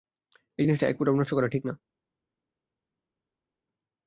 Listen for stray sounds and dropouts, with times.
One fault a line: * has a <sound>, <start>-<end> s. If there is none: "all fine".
all fine